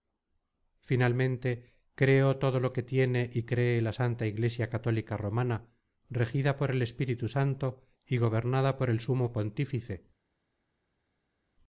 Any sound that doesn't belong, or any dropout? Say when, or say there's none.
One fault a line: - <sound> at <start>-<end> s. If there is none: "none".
none